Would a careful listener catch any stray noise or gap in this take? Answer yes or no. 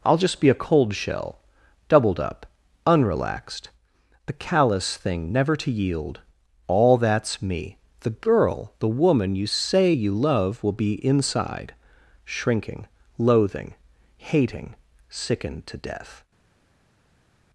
no